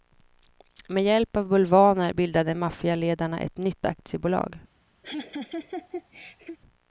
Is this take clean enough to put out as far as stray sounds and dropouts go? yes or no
no